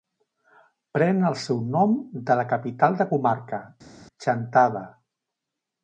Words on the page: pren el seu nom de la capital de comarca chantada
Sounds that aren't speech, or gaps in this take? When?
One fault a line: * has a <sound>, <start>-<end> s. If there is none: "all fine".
all fine